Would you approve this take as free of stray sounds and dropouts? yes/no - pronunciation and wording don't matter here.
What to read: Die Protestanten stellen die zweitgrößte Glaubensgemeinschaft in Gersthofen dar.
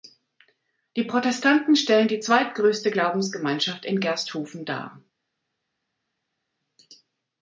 yes